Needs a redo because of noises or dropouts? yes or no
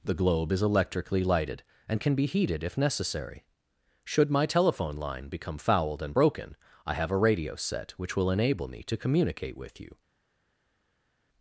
no